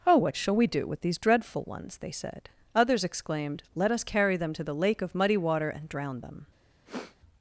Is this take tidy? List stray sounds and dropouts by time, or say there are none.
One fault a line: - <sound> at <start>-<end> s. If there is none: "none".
- sniff at 6.9-7.2 s